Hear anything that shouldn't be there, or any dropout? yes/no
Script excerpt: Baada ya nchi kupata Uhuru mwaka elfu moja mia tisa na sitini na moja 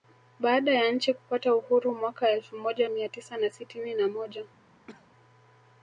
yes